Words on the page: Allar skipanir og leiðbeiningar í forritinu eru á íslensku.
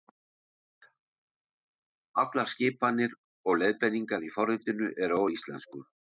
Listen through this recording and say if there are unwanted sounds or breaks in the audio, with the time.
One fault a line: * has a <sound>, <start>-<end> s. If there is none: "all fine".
all fine